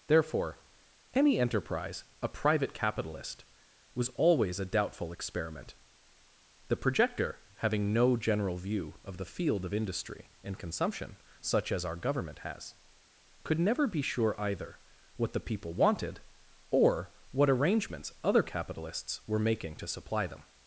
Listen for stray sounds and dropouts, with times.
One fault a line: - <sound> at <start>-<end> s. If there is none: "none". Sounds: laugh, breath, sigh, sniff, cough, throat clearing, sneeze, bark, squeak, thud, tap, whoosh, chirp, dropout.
none